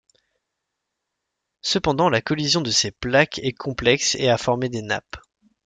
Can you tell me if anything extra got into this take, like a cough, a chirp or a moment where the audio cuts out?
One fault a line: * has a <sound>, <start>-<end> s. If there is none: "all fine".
all fine